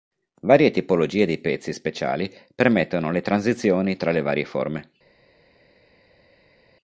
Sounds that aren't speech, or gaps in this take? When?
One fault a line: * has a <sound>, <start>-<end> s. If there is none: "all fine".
all fine